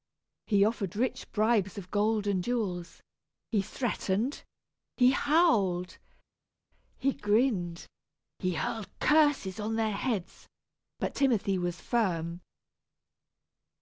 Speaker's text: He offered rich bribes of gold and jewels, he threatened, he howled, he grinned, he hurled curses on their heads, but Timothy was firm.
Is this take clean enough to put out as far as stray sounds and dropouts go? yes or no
yes